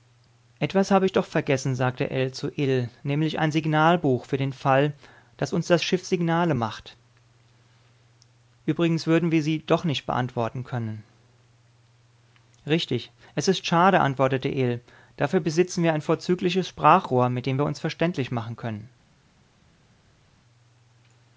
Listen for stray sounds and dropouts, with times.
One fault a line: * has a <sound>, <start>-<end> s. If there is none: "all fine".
all fine